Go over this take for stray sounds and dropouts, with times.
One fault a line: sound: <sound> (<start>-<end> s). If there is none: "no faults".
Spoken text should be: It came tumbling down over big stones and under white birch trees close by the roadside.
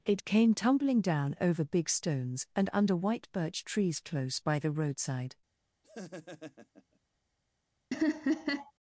sound: laugh (5.8-7.0 s)
sound: laugh (7.9-8.7 s)